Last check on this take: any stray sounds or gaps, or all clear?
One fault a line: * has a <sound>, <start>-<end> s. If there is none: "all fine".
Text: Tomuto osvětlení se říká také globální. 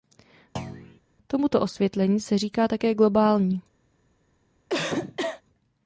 * has a thud, 0.6-1.0 s
* has a cough, 4.7-5.4 s